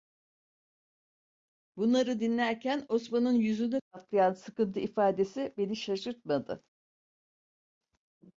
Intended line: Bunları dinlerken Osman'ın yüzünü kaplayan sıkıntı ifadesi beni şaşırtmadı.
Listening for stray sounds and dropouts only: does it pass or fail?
pass